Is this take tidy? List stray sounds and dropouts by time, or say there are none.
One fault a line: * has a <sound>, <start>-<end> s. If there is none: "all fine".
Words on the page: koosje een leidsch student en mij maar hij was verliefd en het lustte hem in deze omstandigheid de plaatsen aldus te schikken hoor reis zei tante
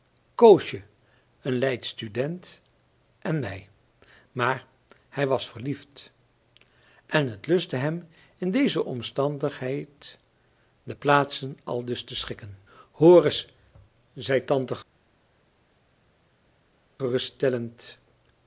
all fine